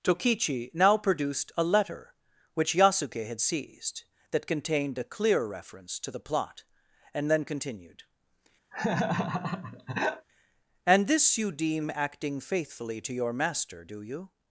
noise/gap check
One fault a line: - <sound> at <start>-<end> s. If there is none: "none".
- laugh at 8.7-10.3 s